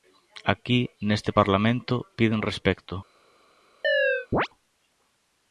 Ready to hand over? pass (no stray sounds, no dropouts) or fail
fail